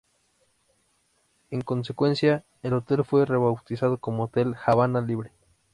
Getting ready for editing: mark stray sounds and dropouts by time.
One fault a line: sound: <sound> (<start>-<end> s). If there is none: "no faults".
no faults